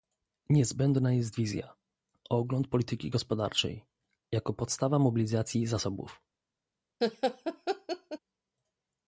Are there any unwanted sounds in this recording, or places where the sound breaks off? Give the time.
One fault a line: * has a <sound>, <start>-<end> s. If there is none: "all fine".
* has a laugh, 7.0-8.2 s